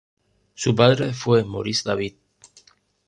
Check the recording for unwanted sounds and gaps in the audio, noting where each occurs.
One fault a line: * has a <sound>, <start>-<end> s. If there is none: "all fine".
all fine